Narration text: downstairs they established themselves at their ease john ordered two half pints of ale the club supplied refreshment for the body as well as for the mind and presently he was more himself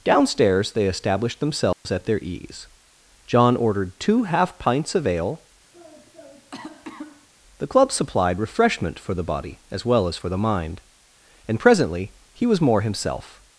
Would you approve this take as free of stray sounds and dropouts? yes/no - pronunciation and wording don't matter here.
no